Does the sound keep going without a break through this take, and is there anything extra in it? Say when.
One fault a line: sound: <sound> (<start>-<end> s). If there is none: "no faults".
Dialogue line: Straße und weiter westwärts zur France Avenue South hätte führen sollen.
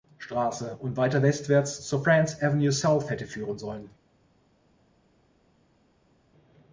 no faults